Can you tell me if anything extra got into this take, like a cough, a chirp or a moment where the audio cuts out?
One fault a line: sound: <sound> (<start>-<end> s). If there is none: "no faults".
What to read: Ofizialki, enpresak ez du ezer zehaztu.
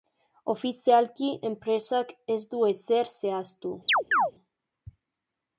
sound: chirp (3.9-4.3 s)